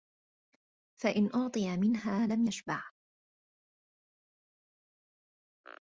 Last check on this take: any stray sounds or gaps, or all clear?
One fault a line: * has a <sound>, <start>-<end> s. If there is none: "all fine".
all fine